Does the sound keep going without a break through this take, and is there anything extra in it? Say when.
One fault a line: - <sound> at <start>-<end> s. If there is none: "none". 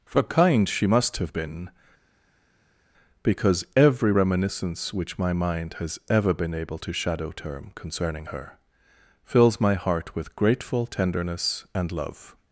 none